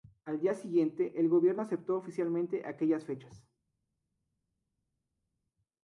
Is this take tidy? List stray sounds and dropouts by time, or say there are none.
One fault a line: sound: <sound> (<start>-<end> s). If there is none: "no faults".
no faults